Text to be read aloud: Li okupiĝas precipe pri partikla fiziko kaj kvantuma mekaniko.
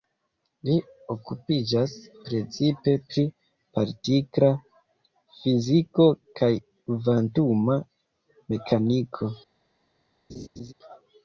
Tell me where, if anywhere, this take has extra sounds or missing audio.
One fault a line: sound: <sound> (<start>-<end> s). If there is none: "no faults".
sound: laugh (10.3-10.7 s)